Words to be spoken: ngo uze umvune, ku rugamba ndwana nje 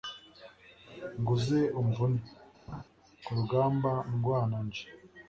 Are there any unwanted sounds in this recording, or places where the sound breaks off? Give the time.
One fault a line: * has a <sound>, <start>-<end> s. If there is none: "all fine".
* has a laugh, 2.7-2.8 s